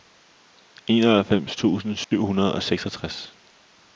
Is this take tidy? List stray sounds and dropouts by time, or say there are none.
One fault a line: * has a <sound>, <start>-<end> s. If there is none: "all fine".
* has a dropout, 2.0-2.1 s